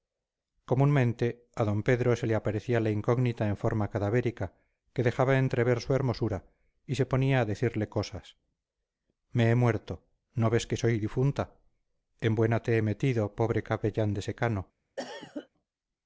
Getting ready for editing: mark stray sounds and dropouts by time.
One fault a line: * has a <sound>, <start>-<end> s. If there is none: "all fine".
* has a cough, 15.0-15.5 s